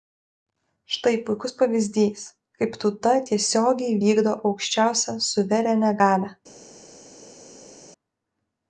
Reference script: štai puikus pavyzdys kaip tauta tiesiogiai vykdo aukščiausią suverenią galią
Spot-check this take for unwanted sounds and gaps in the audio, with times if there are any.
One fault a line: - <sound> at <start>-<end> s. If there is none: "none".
none